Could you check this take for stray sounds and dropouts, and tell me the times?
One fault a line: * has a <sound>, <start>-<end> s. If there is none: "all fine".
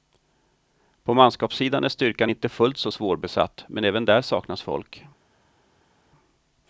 all fine